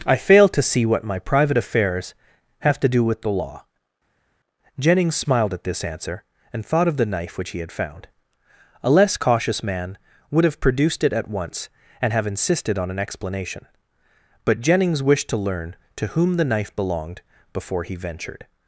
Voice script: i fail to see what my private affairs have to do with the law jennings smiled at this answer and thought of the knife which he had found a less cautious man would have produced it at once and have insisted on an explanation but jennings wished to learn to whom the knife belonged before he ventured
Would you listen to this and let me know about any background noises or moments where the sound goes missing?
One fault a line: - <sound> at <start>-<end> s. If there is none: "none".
none